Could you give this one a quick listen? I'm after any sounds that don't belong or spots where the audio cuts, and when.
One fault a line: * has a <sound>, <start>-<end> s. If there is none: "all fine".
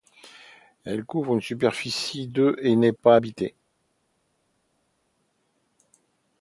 all fine